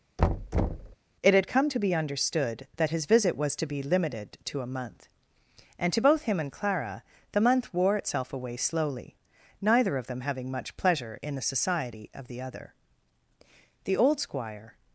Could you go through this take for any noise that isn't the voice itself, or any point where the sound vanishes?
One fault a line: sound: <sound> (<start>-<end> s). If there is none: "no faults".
sound: thud (0.2-1.0 s)